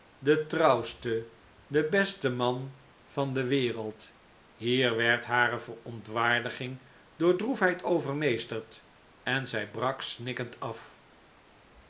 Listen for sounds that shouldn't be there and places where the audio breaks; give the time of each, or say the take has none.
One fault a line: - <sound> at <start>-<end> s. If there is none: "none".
none